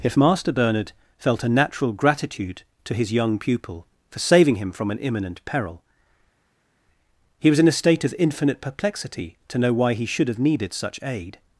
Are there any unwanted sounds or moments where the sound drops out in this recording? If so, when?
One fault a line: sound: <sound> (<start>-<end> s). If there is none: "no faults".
no faults